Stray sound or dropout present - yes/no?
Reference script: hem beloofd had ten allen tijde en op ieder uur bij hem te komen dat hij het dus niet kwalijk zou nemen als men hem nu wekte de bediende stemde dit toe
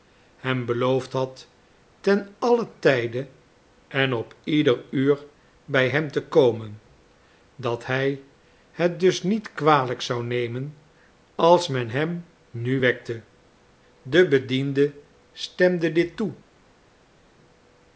no